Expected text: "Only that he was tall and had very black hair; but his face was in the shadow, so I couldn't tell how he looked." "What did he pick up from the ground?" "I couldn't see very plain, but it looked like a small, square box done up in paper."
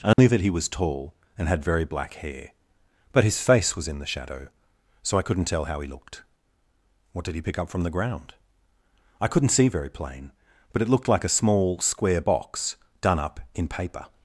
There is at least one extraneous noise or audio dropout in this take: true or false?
true